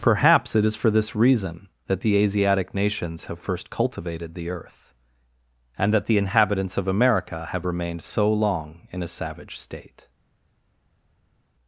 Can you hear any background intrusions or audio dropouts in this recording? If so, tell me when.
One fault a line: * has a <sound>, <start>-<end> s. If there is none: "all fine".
all fine